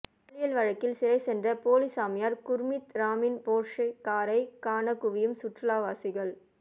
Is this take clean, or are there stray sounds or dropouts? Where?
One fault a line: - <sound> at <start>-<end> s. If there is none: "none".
none